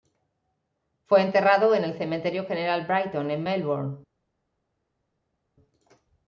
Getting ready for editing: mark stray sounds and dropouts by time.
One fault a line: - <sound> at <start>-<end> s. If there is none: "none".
none